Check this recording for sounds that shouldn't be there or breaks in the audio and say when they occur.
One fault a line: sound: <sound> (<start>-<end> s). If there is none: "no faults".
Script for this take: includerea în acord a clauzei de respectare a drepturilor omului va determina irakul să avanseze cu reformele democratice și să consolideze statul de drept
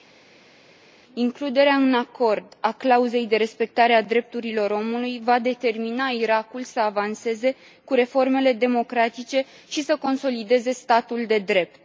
no faults